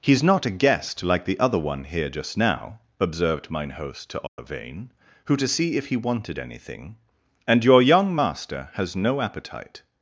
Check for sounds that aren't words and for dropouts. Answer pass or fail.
fail